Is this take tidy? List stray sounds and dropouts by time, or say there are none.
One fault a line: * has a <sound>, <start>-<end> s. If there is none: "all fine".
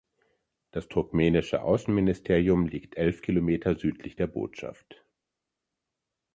all fine